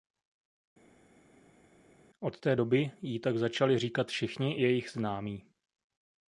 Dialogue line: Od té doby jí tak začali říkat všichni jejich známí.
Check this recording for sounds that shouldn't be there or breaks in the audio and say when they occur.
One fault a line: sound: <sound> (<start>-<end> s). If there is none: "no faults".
no faults